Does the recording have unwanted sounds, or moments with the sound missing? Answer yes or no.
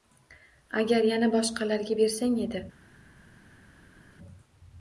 no